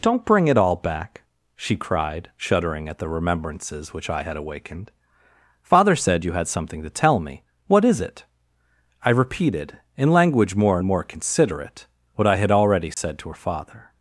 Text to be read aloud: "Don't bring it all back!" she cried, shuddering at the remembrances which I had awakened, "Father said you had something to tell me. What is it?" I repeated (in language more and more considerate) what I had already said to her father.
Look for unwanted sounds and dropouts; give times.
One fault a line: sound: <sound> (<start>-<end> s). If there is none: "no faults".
sound: dropout (12.9-13.0 s)